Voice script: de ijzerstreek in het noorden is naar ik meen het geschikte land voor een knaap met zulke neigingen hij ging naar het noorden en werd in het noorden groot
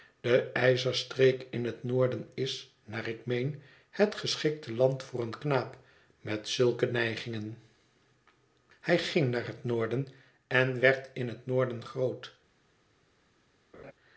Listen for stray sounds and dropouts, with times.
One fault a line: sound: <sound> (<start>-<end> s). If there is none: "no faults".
sound: laugh (13.7-13.9 s)